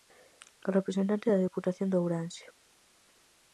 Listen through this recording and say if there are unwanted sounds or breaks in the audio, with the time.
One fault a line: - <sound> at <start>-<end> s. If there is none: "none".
none